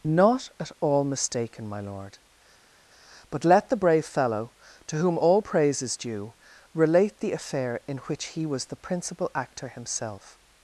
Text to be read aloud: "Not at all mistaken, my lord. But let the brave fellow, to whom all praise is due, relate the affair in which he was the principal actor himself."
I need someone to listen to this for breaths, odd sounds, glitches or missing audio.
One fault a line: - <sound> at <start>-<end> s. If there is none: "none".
none